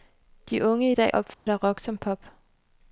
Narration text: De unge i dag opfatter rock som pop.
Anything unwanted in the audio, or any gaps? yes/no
yes